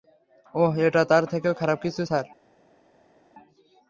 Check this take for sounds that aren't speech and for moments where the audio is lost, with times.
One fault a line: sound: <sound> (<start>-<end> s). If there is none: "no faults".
no faults